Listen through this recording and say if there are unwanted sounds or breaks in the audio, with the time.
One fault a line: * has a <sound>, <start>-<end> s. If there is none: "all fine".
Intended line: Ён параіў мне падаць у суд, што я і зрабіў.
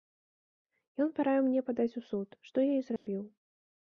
* has a dropout, 3.0-3.1 s